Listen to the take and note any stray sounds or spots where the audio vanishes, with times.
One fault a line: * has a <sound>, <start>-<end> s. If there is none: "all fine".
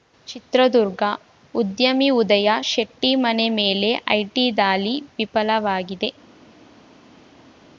all fine